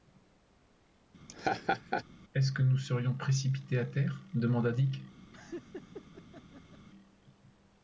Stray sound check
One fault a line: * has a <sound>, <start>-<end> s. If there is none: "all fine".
* has a laugh, 1.3-2.0 s
* has a laugh, 5.3-6.9 s